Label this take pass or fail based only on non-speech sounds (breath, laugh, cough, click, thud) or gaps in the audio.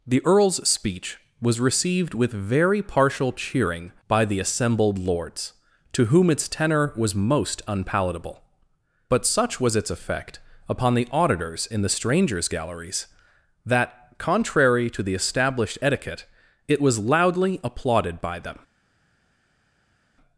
pass